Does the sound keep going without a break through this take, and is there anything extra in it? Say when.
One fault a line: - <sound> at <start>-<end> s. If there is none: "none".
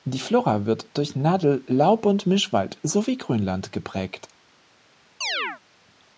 - chirp at 5.2-5.6 s